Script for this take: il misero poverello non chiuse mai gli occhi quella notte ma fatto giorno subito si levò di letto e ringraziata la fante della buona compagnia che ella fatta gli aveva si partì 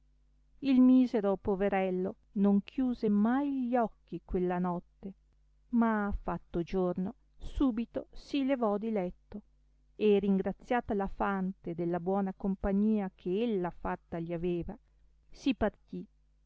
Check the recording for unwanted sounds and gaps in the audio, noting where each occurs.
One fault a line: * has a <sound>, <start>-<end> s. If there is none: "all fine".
all fine